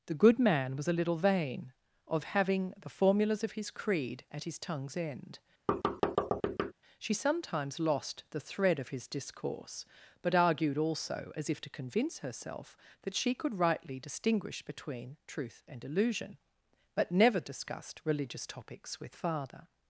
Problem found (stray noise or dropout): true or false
true